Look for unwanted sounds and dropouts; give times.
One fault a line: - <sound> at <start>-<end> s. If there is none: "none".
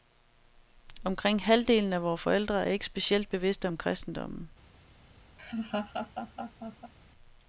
- laugh at 5.4-6.9 s